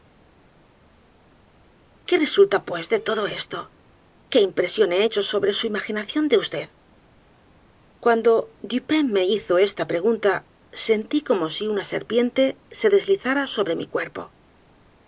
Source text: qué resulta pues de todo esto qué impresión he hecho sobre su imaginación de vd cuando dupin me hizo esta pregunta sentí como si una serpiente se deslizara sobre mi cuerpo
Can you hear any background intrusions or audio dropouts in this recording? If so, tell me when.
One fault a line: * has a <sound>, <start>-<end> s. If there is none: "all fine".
all fine